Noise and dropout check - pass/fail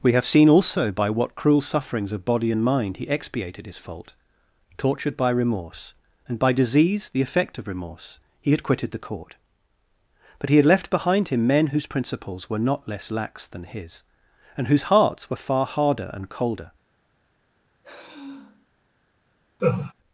fail